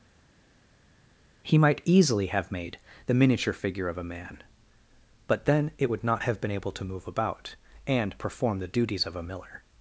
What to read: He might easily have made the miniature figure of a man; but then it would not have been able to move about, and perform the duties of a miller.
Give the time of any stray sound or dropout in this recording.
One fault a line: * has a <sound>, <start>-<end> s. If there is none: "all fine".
all fine